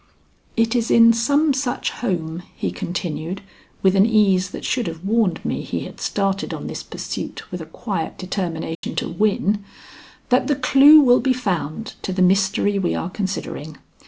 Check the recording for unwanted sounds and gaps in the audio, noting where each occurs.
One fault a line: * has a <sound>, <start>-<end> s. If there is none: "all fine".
* has a dropout, 8.7-8.8 s